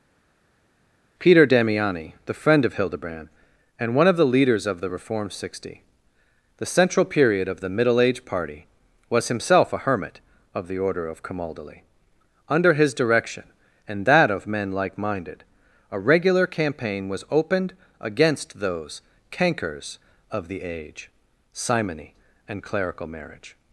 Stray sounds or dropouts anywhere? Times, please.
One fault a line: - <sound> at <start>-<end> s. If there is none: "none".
none